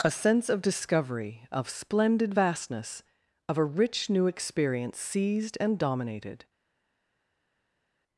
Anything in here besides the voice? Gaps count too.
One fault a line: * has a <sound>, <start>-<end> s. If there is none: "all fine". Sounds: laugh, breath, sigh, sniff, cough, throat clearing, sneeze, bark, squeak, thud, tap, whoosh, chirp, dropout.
all fine